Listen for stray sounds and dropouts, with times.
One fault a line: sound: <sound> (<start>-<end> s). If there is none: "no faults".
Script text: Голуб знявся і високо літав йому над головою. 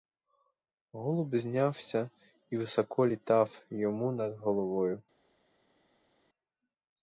no faults